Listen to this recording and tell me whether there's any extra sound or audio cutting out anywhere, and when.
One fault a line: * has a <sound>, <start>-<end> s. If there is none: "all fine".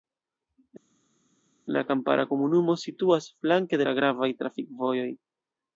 all fine